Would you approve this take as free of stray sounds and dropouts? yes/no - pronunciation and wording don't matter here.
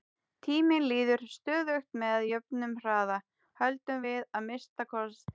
yes